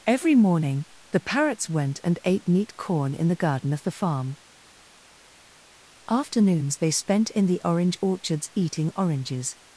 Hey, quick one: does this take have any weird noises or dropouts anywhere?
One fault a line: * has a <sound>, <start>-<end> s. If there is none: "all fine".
all fine